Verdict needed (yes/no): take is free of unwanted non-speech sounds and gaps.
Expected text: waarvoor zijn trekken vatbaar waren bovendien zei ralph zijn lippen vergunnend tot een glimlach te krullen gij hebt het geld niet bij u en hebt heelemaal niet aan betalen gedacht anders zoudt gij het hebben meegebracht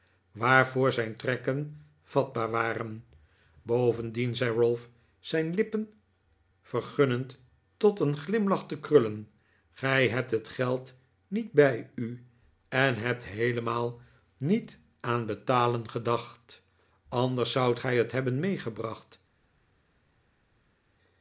yes